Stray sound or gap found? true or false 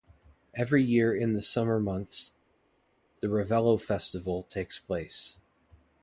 false